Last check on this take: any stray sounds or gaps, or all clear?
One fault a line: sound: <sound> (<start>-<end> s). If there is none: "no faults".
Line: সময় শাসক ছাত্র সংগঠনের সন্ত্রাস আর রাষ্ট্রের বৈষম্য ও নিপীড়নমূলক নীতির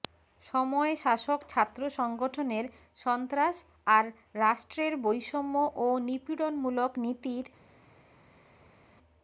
no faults